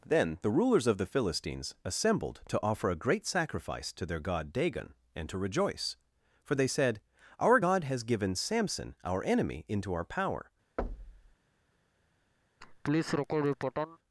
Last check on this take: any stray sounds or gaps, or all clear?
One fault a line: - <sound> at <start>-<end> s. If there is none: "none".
- thud at 10.8-11.4 s
- laugh at 12.6-14.0 s